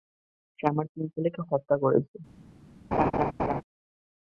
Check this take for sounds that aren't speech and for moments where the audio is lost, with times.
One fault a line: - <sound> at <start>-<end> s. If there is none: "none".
- laugh at 2.9-3.6 s